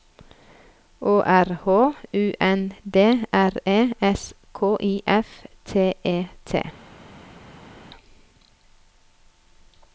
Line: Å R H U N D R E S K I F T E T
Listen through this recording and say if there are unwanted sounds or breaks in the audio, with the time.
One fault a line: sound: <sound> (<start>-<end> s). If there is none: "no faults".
no faults